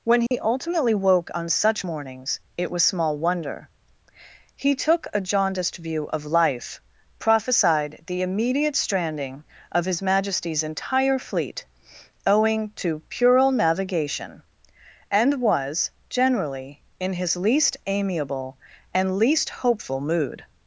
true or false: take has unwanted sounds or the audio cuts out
true